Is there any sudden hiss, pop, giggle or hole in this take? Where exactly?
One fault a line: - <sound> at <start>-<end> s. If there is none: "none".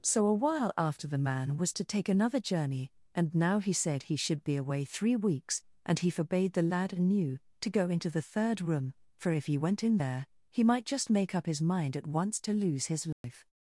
- dropout at 13.1-13.2 s